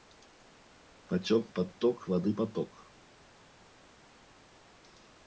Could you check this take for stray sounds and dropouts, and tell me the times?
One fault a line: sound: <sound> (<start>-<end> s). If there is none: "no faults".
no faults